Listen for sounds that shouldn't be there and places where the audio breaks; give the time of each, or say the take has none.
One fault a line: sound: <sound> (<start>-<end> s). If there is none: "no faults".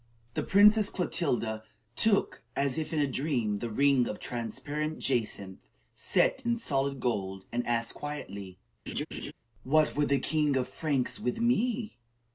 sound: laugh (8.9-9.3 s)